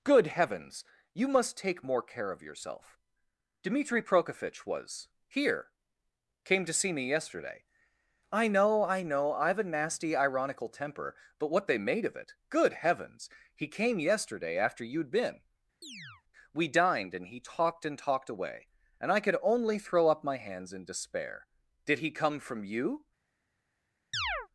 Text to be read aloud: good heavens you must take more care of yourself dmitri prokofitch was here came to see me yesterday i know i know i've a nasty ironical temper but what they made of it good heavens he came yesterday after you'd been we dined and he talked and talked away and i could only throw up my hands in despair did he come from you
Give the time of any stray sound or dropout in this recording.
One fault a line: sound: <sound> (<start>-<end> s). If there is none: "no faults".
sound: chirp (15.8-16.2 s)
sound: chirp (24.1-24.5 s)